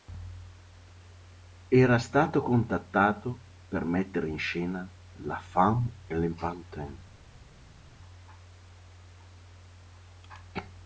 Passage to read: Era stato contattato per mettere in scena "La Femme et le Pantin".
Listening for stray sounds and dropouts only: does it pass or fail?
pass